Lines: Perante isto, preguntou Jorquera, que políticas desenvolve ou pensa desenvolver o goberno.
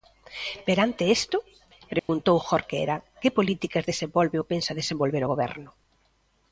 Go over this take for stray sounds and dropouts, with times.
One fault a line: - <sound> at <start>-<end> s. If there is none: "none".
- dropout at 2.0-2.1 s